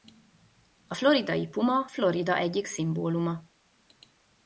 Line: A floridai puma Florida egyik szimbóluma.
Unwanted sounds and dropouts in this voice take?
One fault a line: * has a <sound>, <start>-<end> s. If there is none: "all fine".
all fine